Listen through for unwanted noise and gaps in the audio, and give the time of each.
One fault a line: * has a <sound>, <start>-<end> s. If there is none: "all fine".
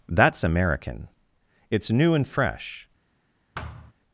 * has a thud, 3.5-3.9 s